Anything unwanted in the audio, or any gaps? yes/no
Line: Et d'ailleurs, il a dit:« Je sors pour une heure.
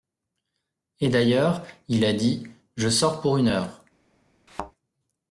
yes